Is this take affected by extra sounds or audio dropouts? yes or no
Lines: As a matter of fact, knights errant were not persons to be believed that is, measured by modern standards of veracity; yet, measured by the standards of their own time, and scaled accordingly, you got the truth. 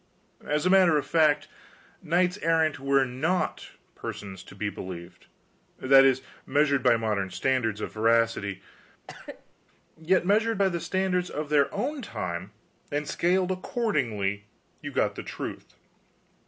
yes